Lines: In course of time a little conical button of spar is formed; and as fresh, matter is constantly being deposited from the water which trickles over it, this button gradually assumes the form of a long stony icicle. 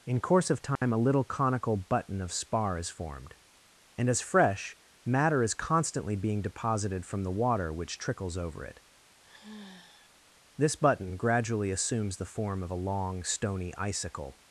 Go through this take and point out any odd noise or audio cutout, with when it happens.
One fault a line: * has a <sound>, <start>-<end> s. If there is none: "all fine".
* has a dropout, 0.8-0.8 s
* has a sigh, 9.2-10.1 s